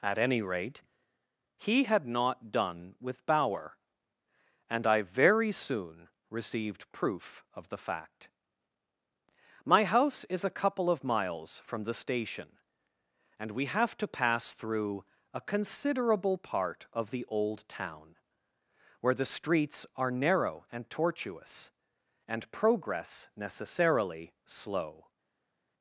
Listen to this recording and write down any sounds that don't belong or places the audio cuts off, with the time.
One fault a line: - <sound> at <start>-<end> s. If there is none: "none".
none